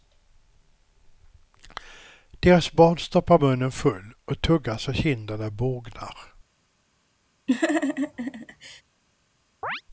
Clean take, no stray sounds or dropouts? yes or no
no